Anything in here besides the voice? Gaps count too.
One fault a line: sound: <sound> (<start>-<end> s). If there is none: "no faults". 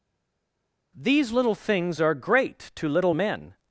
no faults